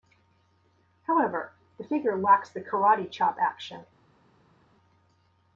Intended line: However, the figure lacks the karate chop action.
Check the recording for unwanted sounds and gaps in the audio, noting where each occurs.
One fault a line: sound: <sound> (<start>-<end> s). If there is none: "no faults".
no faults